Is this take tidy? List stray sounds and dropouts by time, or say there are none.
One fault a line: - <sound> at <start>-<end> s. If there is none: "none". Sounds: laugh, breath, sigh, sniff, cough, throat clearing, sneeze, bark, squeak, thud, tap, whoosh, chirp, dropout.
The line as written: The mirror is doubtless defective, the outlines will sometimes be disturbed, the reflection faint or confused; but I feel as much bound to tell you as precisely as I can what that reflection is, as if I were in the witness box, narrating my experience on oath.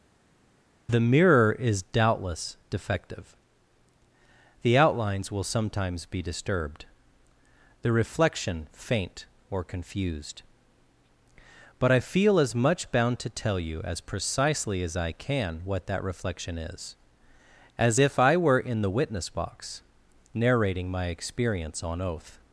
none